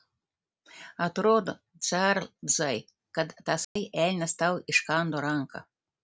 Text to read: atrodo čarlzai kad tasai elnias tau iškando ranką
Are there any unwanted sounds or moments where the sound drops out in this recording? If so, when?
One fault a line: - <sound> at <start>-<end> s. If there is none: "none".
- dropout at 3.6-3.8 s